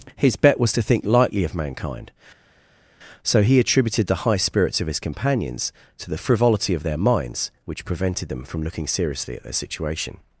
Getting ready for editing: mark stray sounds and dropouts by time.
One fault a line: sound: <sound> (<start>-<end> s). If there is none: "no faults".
no faults